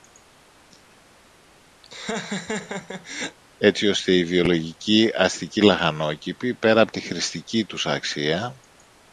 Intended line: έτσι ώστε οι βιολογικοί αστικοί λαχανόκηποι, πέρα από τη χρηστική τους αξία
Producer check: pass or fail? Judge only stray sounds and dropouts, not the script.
fail